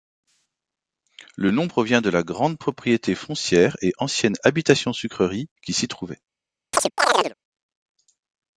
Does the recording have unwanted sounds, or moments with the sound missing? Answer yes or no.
yes